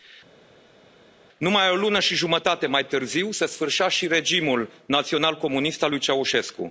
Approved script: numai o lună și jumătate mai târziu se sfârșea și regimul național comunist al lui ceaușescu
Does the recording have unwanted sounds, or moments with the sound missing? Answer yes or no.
no